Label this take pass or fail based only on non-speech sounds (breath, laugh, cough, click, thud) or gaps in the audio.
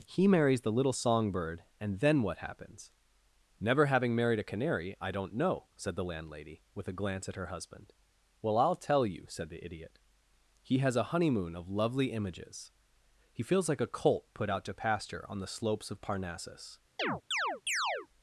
fail